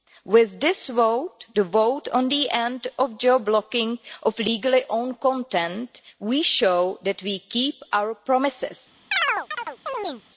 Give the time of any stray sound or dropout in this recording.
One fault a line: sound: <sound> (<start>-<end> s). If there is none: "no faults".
sound: chirp (9.1-10.2 s)